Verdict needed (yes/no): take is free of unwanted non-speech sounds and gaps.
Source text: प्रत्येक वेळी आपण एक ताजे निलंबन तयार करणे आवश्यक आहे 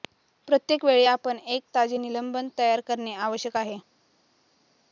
yes